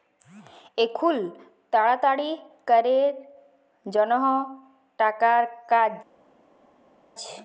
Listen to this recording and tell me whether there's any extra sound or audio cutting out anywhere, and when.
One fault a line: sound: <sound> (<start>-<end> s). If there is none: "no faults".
no faults